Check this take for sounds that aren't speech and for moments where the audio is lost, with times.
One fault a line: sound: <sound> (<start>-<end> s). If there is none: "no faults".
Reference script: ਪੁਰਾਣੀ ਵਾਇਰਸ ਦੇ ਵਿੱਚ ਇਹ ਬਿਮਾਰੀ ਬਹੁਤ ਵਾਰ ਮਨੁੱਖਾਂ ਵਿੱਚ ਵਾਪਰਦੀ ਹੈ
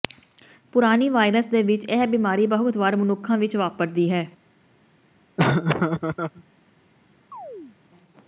sound: laugh (5.4-6.4 s)
sound: chirp (7.3-7.8 s)